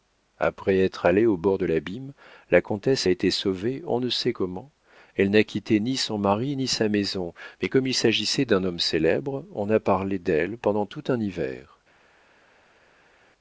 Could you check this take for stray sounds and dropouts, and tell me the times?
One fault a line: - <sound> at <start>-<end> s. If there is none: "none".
none